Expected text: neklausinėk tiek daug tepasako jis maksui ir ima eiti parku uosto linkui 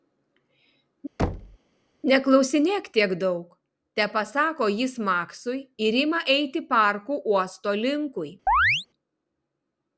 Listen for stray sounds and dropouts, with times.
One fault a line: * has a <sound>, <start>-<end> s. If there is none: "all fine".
* has a thud, 1.2-1.6 s
* has a chirp, 8.5-8.9 s